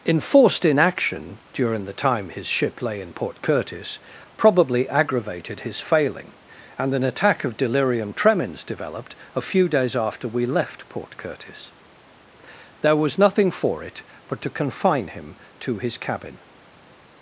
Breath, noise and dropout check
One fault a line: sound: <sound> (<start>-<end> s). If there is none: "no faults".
no faults